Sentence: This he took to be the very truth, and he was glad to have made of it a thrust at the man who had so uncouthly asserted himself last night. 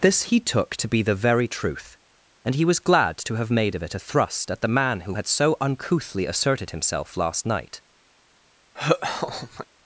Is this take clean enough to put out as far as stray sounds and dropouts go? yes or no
no